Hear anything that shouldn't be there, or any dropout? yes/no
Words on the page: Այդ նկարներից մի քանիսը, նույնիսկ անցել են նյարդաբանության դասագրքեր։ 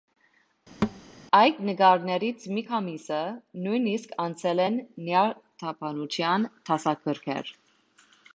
yes